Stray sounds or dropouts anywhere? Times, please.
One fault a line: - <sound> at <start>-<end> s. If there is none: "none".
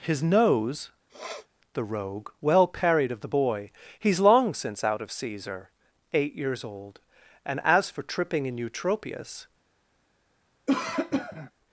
- sniff at 1.1-1.5 s
- cough at 10.7-11.5 s